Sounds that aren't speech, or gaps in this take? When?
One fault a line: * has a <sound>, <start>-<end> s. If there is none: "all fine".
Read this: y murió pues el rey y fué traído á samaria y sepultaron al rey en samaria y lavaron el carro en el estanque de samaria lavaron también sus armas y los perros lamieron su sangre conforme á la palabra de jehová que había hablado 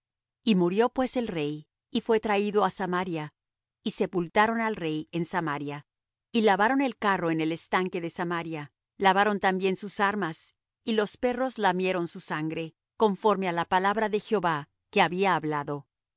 all fine